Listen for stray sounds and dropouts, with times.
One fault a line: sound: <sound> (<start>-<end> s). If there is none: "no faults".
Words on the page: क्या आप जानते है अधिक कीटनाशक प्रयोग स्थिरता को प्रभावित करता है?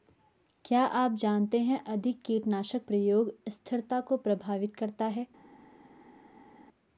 no faults